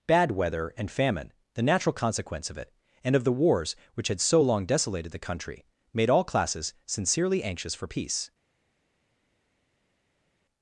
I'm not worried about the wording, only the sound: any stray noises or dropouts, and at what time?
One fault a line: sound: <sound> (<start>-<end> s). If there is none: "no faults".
no faults